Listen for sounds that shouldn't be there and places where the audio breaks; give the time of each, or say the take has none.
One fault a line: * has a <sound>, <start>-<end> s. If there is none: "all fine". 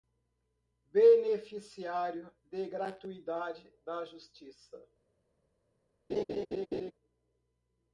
* has a laugh, 6.1-6.9 s